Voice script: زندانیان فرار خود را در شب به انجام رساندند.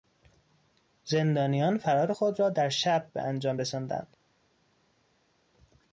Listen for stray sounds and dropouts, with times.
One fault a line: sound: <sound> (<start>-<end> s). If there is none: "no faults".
no faults